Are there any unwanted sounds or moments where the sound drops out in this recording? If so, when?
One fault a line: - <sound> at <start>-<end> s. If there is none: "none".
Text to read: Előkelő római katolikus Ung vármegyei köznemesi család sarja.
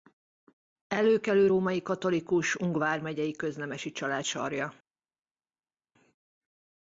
none